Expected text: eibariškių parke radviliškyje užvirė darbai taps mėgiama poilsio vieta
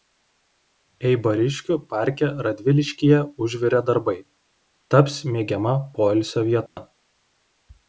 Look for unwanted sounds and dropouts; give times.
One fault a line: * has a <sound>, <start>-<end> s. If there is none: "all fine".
* has a dropout, 6.7-6.8 s